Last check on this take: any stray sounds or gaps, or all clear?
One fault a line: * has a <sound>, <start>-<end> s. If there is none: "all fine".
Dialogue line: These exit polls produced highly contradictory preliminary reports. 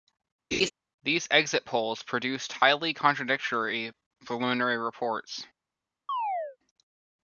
* has a laugh, 0.5-0.7 s
* has a chirp, 6.1-6.6 s